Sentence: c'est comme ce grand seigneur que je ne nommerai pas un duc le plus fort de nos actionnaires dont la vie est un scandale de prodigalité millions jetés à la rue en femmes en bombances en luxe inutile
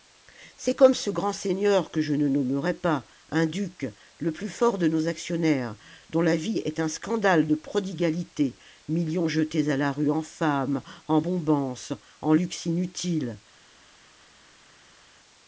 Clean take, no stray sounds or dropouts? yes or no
yes